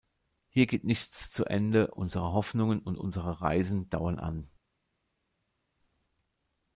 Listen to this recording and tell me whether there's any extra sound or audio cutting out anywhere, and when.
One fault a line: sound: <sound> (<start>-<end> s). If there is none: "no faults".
no faults